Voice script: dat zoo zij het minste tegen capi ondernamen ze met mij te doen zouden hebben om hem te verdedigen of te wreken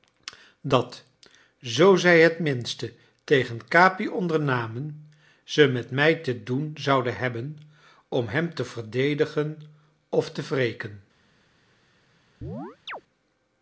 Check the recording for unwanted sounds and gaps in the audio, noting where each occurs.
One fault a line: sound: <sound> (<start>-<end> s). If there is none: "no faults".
sound: chirp (12.4-13.0 s)